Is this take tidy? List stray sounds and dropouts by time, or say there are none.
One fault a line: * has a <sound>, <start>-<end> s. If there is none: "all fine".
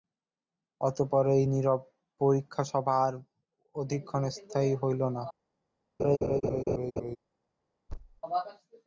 * has a laugh, 6.0-7.2 s
* has a thud, 7.9-8.2 s